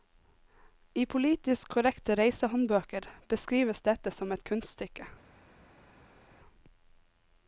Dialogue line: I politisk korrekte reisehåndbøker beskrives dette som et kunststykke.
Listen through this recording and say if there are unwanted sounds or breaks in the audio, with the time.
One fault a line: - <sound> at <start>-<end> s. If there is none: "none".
none